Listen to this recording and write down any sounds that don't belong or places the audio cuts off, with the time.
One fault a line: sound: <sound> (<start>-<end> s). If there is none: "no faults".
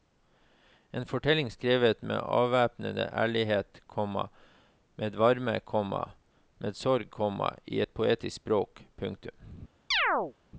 sound: chirp (9.9-10.3 s)